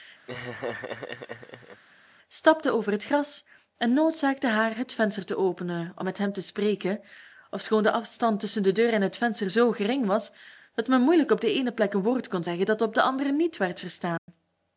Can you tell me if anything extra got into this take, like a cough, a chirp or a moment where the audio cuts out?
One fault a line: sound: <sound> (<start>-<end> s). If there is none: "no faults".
sound: laugh (0.3-1.8 s)
sound: dropout (14.2-14.3 s)